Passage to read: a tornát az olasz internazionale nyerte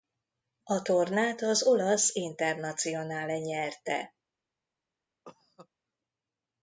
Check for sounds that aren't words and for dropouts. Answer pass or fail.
fail